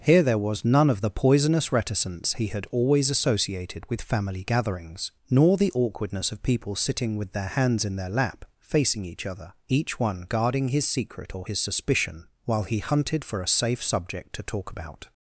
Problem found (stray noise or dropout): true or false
false